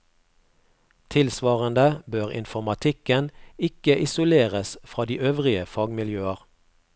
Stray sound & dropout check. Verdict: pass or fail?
pass